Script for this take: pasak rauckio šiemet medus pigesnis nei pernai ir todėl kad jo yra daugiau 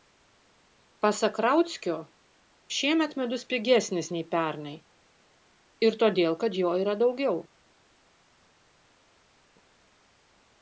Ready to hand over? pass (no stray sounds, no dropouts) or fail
pass